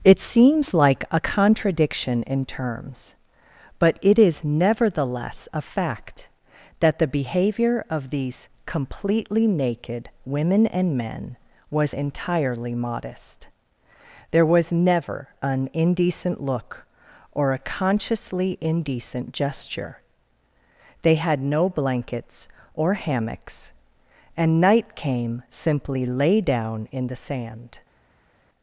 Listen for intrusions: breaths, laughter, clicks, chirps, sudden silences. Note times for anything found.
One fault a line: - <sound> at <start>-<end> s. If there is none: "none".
none